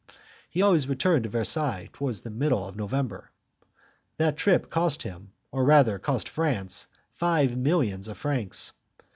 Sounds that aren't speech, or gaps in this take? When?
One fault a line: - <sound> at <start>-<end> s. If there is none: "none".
none